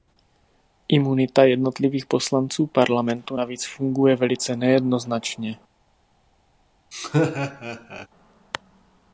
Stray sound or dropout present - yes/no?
yes